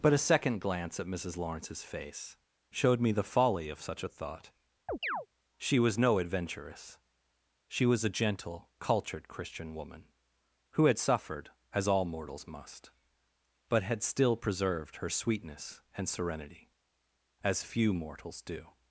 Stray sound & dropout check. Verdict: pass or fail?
fail